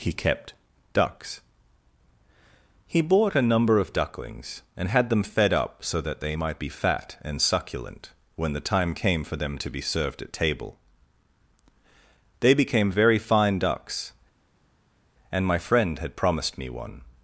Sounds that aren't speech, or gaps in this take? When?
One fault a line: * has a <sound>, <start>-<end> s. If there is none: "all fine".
all fine